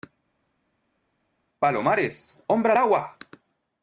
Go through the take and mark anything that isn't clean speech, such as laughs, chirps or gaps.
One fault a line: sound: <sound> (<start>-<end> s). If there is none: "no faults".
no faults